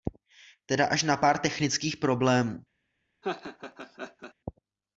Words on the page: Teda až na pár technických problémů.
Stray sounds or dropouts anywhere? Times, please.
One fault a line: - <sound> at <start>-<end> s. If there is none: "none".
- laugh at 3.2-4.3 s